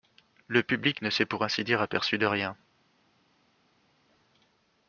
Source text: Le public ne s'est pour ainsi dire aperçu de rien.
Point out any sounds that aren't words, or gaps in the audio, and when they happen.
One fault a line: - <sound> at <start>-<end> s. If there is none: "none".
none